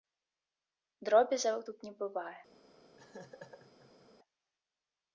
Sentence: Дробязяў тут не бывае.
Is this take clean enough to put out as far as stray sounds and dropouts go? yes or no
no